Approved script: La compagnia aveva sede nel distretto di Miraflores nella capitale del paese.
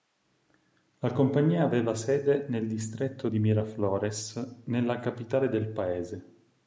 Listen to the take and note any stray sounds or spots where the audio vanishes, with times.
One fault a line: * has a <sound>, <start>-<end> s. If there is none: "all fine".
all fine